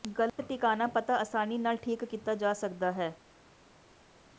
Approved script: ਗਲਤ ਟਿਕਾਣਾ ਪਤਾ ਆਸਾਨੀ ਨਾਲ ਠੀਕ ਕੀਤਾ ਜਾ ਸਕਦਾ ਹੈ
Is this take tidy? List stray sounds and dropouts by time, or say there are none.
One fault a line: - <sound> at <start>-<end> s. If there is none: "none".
none